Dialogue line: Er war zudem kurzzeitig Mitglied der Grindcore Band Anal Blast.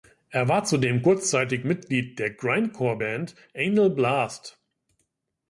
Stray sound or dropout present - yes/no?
no